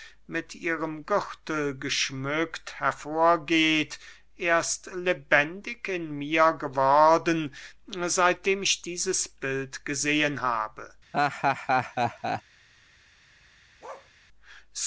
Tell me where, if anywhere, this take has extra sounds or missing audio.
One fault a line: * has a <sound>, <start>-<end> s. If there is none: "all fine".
* has a laugh, 11.1-12.4 s
* has a bark, 13.8-14.1 s